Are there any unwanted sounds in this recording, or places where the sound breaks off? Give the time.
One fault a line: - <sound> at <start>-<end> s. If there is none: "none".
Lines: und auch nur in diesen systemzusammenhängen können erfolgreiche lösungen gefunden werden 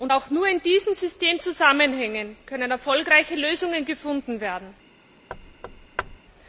- thud at 5.3-6.2 s